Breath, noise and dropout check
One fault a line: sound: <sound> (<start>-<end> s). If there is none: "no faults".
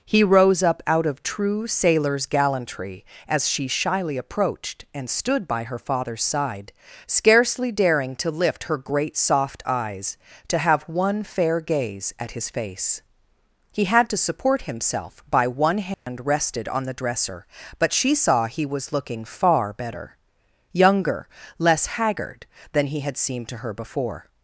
sound: dropout (15.9-16.1 s)